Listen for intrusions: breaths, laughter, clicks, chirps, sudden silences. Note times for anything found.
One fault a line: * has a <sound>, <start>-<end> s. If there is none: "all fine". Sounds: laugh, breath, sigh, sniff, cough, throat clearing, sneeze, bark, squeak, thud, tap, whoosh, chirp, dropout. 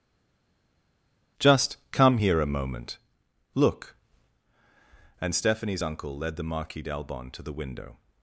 all fine